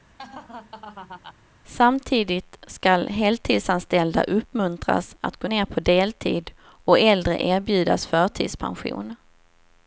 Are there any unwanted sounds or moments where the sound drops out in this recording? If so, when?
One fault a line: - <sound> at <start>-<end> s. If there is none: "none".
- laugh at 0.2-1.4 s